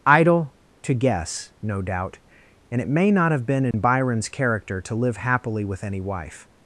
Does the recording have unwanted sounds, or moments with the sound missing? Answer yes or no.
yes